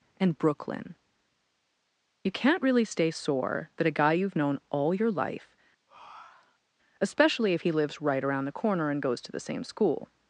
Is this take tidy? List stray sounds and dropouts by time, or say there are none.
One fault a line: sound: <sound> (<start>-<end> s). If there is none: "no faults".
sound: breath (5.9-6.7 s)